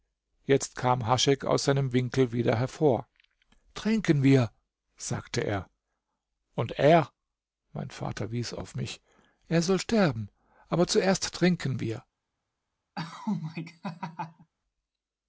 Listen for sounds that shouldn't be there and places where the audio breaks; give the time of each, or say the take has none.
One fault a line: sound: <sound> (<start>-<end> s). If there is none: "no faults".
sound: laugh (12.9-14.5 s)